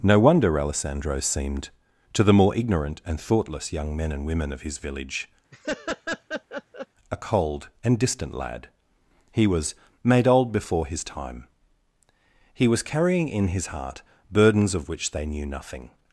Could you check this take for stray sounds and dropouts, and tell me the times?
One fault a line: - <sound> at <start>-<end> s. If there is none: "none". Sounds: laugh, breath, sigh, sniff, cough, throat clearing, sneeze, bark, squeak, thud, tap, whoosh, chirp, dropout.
- laugh at 5.5-6.9 s